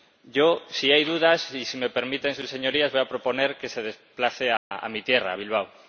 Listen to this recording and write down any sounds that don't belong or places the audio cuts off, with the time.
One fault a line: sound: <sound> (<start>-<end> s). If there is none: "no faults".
sound: dropout (4.6-4.7 s)